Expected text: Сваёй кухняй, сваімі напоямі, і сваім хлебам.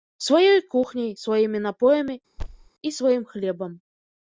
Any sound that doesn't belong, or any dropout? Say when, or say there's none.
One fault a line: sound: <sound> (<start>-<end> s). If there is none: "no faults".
sound: thud (2.4-2.7 s)